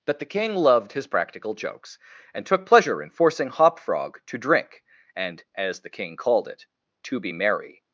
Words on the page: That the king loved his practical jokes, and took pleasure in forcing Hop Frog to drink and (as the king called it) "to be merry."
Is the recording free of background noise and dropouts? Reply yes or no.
yes